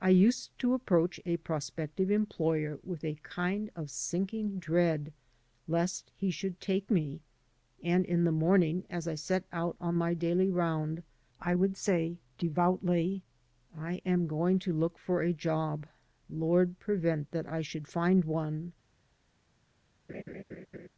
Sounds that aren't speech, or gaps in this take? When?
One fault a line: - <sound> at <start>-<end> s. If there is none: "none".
- laugh at 20.1-20.9 s